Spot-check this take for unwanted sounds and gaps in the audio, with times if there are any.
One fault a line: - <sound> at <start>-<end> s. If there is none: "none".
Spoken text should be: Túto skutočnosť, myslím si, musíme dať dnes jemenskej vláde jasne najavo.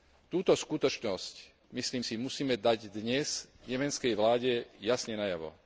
none